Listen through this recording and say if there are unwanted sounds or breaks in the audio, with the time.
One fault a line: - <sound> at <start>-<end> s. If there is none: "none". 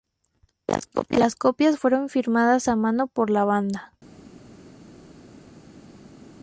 none